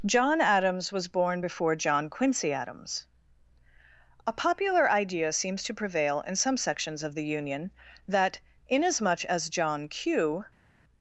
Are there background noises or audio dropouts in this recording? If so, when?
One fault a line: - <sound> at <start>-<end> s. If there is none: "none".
none